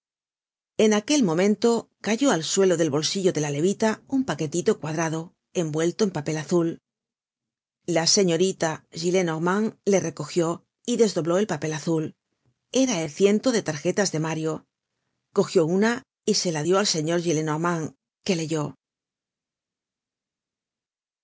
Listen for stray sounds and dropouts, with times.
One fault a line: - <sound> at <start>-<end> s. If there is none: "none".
none